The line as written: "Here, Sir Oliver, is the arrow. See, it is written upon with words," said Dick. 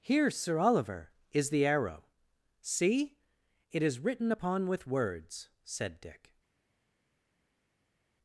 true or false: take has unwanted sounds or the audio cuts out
false